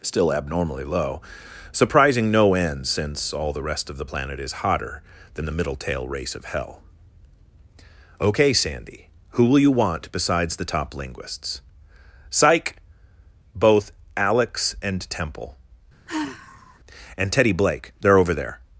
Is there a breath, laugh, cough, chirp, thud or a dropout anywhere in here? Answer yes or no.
yes